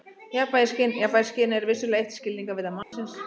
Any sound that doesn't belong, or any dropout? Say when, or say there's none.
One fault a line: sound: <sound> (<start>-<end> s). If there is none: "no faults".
sound: dropout (2.8-2.9 s)